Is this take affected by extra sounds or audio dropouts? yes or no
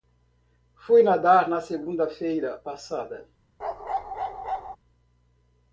yes